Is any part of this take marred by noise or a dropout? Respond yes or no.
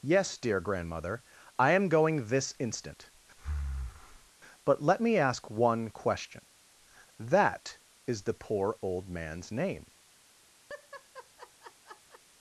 yes